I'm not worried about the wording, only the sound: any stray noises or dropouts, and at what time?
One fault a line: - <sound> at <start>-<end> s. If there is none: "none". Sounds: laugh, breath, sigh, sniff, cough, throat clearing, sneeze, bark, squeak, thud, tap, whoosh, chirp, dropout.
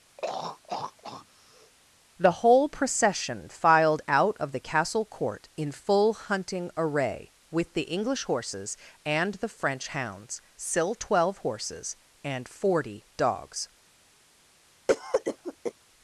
- throat clearing at 0.2-1.7 s
- cough at 14.9-15.7 s